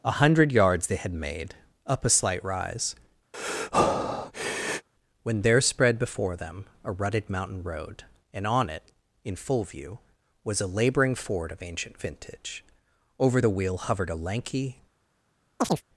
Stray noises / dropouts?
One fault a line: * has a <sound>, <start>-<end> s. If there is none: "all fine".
* has a breath, 3.3-4.9 s
* has a chirp, 15.6-15.8 s